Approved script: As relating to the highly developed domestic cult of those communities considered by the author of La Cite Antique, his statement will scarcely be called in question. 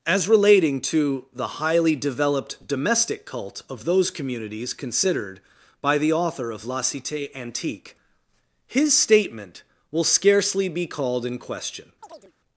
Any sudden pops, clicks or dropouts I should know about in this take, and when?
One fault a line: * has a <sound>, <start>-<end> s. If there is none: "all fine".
* has a chirp, 12.0-12.3 s